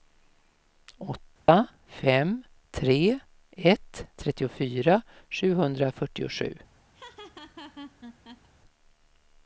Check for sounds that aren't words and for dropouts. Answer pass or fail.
fail